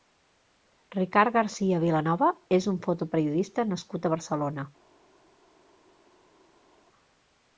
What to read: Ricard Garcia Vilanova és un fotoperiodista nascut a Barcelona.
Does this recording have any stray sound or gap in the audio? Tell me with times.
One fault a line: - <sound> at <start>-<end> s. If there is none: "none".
none